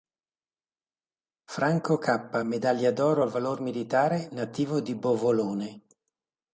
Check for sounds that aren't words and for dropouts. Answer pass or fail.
pass